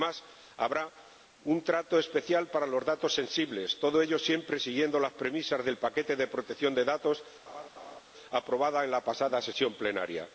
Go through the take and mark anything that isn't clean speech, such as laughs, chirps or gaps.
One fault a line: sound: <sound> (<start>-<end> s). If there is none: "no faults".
sound: laugh (7.5-8.0 s)